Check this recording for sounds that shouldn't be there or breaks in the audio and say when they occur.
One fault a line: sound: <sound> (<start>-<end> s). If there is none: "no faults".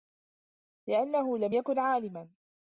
no faults